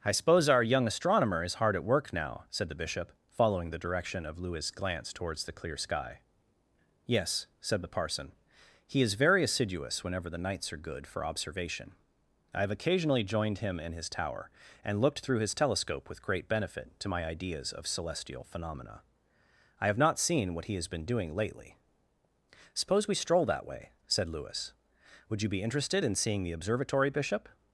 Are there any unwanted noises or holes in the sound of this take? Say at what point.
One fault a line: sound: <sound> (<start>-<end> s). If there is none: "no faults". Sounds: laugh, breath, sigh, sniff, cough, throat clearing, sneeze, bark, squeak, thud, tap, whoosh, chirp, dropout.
no faults